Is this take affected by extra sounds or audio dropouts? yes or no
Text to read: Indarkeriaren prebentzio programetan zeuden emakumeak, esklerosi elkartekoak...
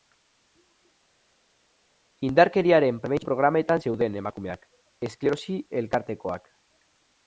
no